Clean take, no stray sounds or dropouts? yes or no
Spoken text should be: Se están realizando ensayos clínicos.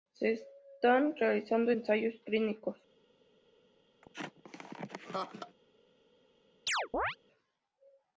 no